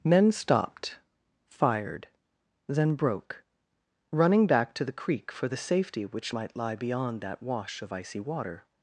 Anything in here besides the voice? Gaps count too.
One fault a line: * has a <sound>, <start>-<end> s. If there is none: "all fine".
all fine